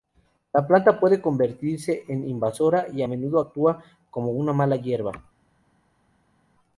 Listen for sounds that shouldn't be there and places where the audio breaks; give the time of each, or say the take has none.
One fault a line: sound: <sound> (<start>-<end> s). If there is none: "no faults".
no faults